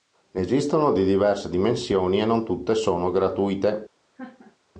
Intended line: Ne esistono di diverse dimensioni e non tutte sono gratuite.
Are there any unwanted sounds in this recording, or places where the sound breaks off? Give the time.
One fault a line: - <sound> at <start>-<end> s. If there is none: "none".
- laugh at 4.1-4.6 s